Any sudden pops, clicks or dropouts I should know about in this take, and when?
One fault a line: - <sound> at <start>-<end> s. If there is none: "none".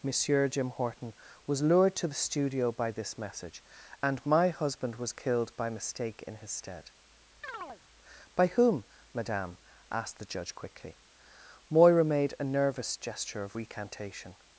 - chirp at 7.4-7.8 s